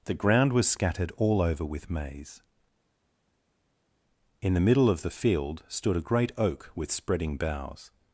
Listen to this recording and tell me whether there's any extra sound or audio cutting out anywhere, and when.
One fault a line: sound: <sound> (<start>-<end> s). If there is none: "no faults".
no faults